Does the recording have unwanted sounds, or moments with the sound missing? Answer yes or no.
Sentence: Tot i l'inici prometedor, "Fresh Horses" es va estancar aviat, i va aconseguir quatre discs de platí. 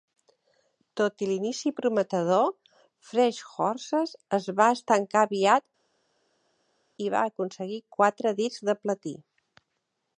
no